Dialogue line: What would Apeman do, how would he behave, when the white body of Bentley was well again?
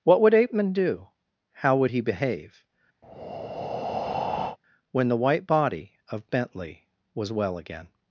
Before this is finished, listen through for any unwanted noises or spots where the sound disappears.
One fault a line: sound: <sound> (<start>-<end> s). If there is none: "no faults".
sound: breath (3.0-4.6 s)